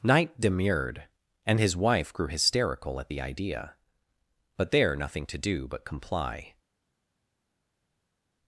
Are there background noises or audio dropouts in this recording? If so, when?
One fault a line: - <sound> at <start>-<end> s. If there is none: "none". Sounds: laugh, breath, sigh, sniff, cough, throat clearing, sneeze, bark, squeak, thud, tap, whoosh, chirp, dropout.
none